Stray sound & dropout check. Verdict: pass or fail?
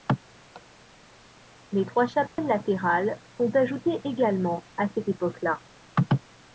fail